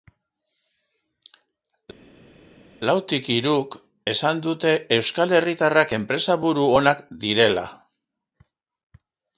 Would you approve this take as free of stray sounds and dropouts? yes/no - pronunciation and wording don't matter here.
yes